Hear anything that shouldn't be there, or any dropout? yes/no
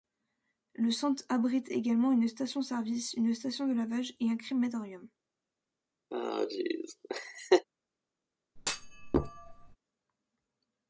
yes